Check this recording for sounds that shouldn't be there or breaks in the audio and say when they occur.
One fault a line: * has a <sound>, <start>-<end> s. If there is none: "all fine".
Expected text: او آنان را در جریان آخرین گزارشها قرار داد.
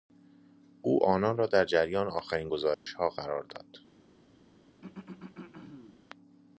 * has a dropout, 2.7-2.9 s
* has a throat clearing, 4.8-6.0 s